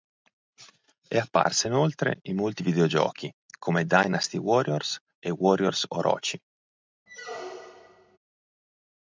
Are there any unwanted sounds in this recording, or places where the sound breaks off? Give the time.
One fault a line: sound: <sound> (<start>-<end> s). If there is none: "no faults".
sound: squeak (7.1-8.2 s)